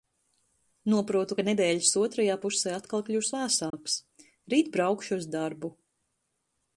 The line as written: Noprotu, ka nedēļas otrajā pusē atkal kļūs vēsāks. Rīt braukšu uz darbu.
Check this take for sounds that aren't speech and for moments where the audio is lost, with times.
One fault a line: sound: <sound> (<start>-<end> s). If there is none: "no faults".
sound: dropout (3.7-3.7 s)